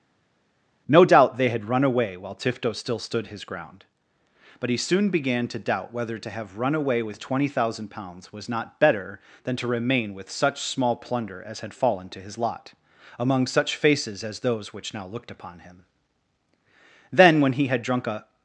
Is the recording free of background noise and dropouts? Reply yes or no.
yes